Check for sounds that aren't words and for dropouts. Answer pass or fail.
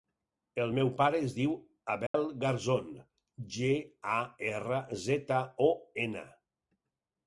fail